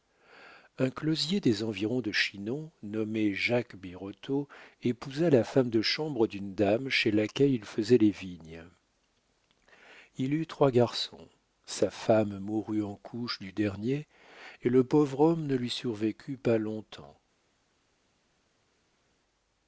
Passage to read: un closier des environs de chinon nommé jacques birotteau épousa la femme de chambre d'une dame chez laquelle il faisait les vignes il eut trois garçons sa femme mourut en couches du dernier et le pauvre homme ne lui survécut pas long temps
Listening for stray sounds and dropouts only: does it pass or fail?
pass